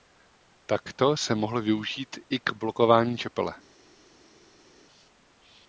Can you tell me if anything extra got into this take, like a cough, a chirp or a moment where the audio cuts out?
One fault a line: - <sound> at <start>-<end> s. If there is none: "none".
none